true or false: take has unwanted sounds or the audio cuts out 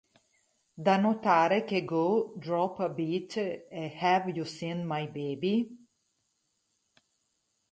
false